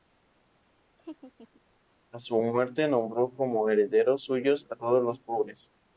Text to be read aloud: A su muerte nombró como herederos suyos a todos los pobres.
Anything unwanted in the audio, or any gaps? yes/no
yes